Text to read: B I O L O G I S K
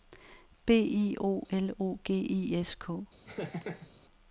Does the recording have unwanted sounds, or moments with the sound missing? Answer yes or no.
yes